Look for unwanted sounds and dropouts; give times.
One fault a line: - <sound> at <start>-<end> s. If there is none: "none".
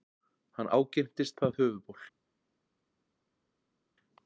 none